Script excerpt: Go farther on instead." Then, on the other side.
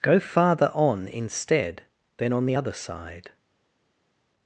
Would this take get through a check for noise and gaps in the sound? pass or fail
pass